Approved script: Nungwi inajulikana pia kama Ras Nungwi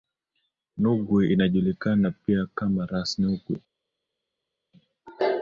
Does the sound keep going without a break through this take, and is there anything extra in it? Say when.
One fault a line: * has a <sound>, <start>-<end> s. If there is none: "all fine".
all fine